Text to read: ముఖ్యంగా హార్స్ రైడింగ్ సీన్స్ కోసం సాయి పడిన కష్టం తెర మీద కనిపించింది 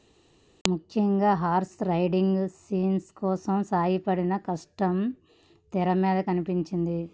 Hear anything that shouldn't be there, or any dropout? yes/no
no